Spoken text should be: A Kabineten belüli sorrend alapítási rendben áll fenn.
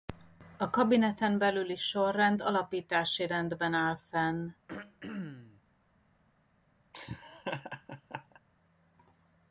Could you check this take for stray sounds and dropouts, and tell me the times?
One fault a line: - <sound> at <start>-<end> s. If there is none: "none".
- throat clearing at 4.7-5.6 s
- laugh at 6.9-8.4 s